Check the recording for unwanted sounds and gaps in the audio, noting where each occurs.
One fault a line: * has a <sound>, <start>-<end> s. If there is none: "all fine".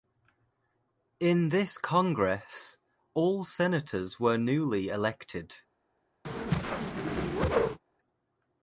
* has a whoosh, 6.2-7.8 s